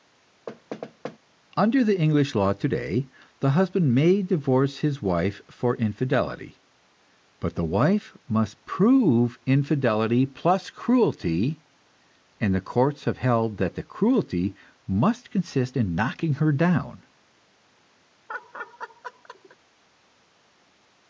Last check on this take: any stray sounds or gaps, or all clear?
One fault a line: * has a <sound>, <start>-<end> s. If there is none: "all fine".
* has a thud, 0.5-1.2 s
* has a laugh, 18.3-19.6 s